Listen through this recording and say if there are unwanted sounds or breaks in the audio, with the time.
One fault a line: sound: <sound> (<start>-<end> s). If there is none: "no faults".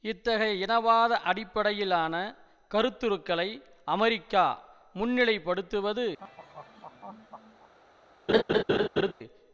sound: laugh (6.2-7.7 s)
sound: laugh (8.3-9.1 s)